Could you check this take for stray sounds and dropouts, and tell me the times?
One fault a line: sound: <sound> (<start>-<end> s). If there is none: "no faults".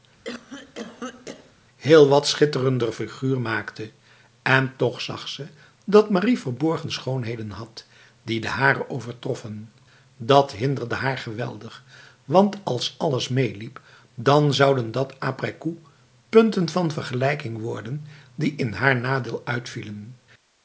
sound: cough (0.2-1.5 s)